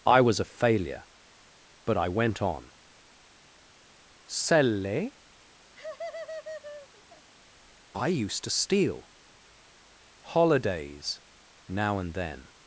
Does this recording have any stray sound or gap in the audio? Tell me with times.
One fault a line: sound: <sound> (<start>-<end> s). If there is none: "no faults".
sound: laugh (5.7-7.3 s)